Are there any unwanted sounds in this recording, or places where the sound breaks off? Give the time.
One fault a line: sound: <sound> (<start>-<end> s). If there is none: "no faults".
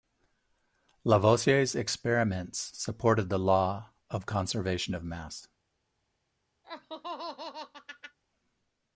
sound: laugh (6.6-8.2 s)